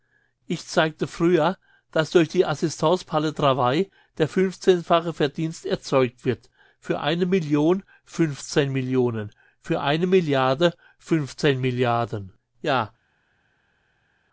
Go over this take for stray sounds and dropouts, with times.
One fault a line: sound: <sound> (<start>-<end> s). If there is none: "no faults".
no faults